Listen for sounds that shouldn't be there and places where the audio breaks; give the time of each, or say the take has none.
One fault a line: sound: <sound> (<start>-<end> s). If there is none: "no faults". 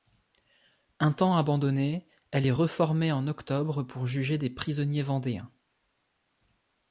no faults